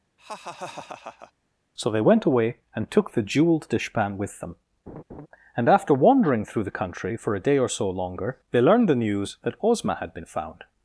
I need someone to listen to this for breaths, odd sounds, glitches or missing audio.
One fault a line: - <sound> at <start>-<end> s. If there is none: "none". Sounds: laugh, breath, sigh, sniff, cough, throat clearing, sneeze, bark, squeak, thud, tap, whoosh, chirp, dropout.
- laugh at 0.2-1.3 s
- laugh at 4.9-5.3 s